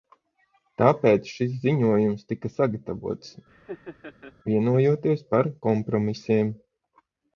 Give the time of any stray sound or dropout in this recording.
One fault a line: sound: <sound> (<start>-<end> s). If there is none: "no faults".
sound: laugh (3.5-4.3 s)